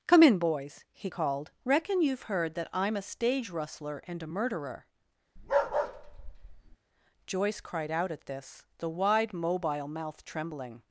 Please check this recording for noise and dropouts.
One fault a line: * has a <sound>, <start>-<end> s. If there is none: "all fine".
* has a bark, 5.4-6.8 s